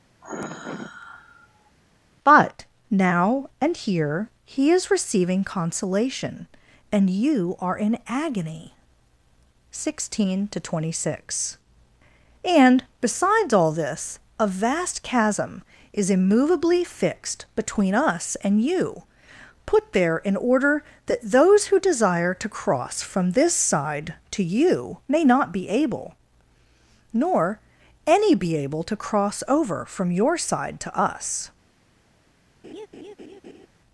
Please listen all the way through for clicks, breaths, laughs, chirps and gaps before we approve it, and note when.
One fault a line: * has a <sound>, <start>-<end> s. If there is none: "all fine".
* has a sigh, 0.2-1.7 s
* has a laugh, 32.6-33.7 s